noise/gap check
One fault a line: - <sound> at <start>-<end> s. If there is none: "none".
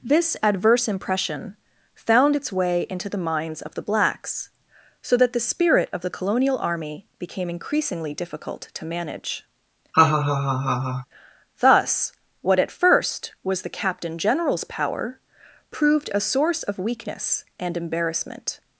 - laugh at 9.9-11.1 s